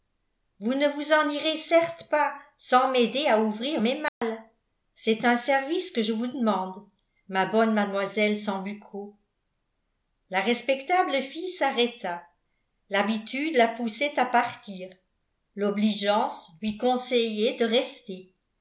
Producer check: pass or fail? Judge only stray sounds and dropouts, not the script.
fail